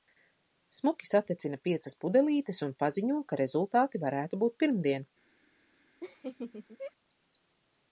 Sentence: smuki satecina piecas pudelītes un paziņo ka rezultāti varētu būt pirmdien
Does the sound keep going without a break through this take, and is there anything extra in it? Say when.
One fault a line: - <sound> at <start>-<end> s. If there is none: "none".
- laugh at 6.0-6.9 s